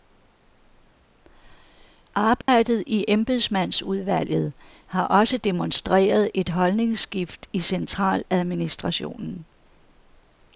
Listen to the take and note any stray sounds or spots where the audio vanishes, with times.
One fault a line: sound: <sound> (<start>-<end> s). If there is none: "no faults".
sound: dropout (2.4-2.5 s)